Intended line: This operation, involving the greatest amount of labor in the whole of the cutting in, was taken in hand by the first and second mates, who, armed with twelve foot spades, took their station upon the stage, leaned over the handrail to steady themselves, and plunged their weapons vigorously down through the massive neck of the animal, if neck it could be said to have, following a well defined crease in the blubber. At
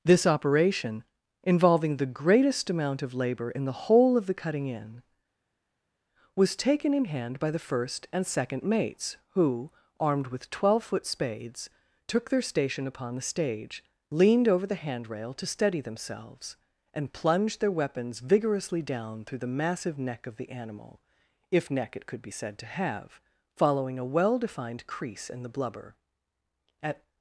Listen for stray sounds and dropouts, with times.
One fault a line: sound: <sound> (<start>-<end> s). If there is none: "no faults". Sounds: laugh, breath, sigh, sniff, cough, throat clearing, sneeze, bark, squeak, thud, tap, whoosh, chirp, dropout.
no faults